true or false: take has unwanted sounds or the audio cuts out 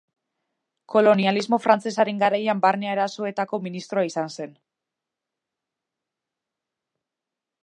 false